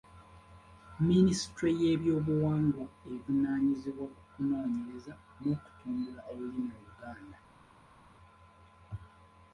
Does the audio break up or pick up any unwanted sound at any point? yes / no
no